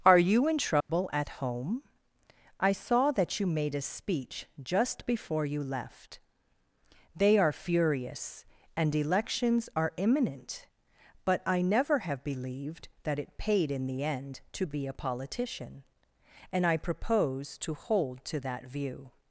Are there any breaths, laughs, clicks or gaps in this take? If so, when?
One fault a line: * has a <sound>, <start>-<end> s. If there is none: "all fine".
* has a dropout, 0.8-0.9 s